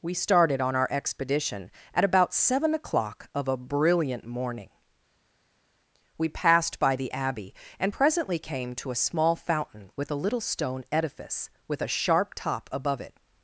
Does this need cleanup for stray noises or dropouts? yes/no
no